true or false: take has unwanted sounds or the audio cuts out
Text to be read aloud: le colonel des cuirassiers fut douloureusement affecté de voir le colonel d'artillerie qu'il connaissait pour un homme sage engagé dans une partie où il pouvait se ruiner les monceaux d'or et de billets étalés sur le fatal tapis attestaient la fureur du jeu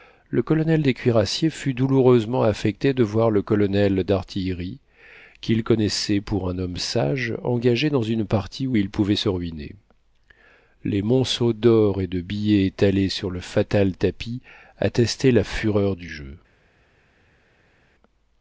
false